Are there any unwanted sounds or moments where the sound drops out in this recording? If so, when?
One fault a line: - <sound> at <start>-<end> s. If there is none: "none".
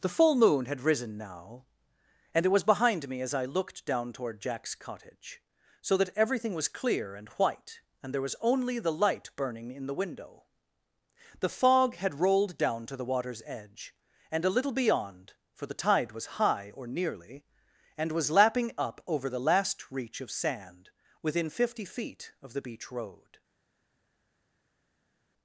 none